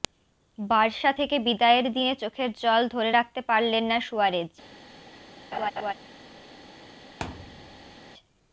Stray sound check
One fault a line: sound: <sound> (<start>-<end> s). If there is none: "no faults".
sound: laugh (5.5-5.9 s)
sound: thud (7.2-8.0 s)